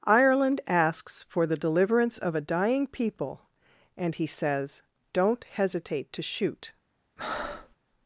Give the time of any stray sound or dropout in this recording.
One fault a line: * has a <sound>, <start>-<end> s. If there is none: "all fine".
* has a breath, 7.2-7.8 s